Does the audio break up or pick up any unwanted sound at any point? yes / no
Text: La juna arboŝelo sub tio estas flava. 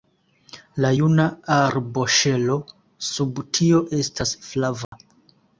yes